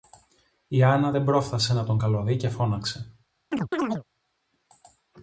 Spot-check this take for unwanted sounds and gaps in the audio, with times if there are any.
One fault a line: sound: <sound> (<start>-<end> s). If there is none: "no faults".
sound: chirp (3.5-4.0 s)